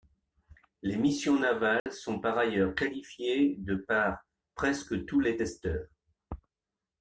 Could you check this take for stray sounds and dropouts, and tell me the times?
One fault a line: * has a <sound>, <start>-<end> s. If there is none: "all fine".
* has a dropout, 1.8-1.9 s